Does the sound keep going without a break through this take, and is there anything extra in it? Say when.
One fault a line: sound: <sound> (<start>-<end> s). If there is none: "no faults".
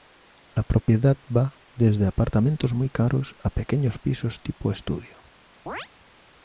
sound: dropout (0.8-0.9 s)
sound: chirp (5.7-5.9 s)